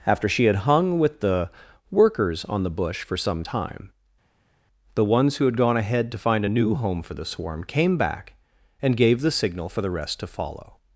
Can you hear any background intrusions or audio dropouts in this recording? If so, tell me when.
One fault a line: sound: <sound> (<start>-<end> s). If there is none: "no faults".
no faults